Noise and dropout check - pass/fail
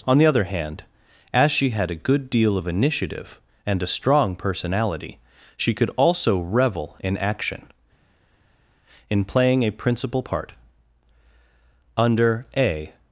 pass